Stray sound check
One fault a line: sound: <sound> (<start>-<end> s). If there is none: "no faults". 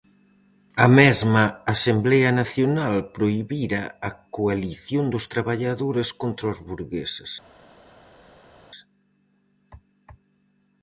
no faults